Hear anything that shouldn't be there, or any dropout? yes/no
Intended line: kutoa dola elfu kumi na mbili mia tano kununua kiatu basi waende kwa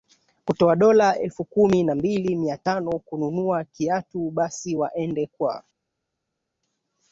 no